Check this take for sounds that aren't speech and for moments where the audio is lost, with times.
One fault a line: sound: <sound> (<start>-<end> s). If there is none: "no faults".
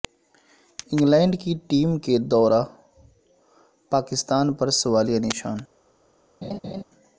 sound: laugh (6.4-6.8 s)